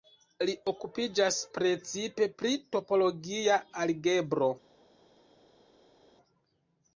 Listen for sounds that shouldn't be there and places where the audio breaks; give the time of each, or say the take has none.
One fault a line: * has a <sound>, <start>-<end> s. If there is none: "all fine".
all fine